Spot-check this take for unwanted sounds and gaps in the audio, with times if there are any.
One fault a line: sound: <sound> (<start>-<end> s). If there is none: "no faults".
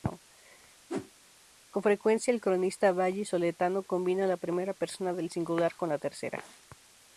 sound: whoosh (0.9-1.1 s)